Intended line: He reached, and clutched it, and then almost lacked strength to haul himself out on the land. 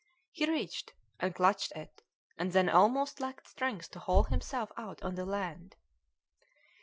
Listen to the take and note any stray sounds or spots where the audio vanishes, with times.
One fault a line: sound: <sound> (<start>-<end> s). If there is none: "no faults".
no faults